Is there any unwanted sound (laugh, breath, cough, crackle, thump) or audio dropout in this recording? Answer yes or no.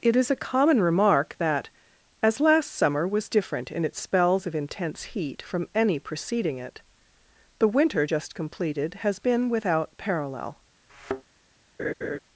yes